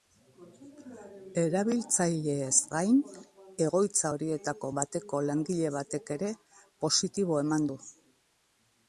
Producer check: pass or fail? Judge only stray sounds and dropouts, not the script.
pass